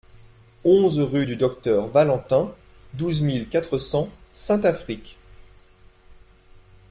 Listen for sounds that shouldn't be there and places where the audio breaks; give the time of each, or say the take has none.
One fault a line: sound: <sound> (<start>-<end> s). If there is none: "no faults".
no faults